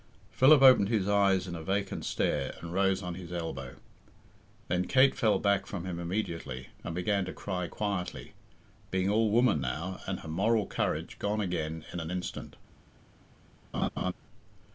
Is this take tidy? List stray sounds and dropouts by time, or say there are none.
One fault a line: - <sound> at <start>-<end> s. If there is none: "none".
- laugh at 13.7-14.1 s